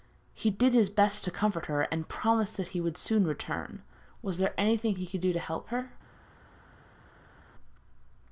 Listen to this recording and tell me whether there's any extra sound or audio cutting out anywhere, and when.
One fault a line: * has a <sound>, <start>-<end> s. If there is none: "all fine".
all fine